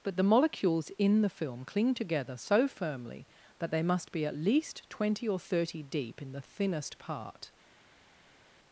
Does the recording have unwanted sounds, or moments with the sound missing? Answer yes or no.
no